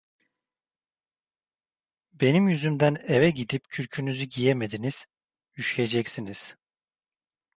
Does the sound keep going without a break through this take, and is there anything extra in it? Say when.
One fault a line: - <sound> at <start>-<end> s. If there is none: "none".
none